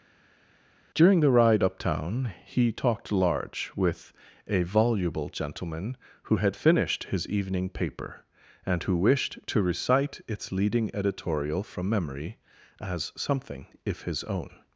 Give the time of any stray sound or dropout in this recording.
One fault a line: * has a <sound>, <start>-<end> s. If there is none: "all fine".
all fine